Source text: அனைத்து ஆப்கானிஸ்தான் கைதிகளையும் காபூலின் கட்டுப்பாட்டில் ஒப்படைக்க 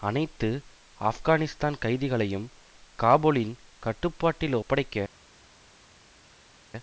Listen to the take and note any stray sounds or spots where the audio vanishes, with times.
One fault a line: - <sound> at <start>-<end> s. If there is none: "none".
none